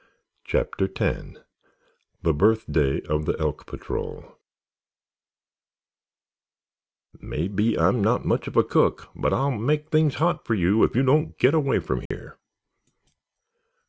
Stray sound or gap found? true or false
true